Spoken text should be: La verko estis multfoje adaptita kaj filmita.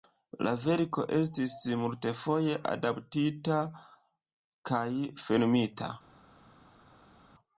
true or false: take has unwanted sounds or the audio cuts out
false